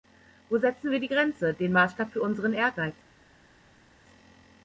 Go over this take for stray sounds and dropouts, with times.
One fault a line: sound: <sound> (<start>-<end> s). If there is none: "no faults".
no faults